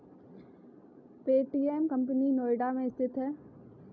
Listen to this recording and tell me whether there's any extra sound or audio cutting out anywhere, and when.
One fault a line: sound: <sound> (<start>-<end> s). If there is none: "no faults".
no faults